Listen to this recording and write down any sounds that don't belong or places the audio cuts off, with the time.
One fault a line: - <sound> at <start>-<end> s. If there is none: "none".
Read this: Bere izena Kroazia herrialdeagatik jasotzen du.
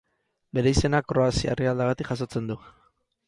none